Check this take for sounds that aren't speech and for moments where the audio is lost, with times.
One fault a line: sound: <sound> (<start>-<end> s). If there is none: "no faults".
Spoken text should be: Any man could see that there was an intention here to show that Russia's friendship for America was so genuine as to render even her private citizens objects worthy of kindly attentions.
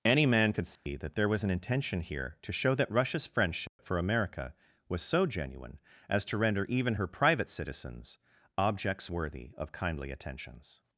sound: dropout (0.8-0.9 s)
sound: dropout (3.7-3.8 s)